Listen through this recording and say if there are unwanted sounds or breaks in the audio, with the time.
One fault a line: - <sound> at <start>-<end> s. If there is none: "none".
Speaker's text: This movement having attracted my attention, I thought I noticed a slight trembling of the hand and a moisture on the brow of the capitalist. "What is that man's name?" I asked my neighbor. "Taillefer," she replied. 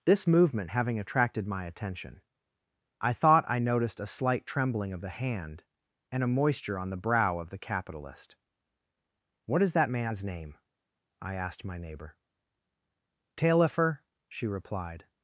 none